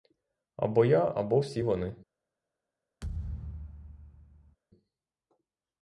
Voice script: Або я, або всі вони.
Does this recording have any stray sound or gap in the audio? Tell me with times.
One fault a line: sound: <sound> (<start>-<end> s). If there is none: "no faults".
sound: thud (3.0-4.6 s)